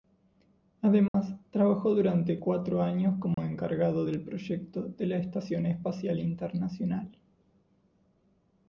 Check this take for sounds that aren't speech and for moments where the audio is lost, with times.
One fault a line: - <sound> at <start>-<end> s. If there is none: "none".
- dropout at 1.1-1.1 s
- dropout at 3.3-3.4 s